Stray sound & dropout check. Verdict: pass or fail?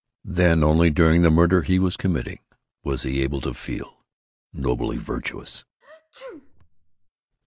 fail